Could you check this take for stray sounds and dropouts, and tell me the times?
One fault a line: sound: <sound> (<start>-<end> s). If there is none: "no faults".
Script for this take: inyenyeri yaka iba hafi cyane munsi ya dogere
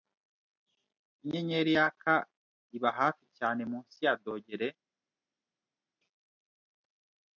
no faults